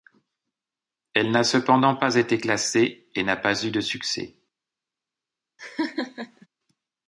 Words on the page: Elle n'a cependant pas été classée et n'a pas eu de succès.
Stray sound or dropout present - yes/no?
yes